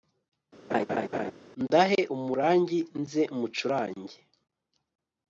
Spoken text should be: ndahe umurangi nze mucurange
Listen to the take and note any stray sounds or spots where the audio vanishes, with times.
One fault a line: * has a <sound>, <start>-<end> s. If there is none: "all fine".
* has a laugh, 0.7-1.3 s